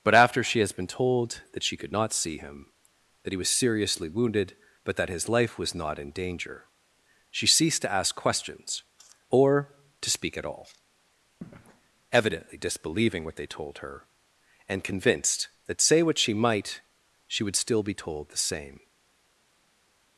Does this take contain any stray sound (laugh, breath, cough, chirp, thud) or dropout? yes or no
no